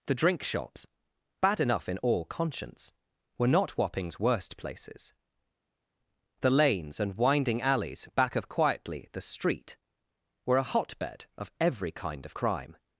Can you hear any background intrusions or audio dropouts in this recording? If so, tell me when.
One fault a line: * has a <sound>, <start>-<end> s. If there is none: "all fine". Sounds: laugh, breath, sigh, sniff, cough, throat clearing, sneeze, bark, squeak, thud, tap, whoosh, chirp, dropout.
all fine